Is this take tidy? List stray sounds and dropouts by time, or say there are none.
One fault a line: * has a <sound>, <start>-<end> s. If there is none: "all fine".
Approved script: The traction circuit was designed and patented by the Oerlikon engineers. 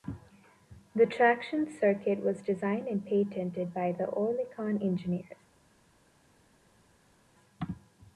all fine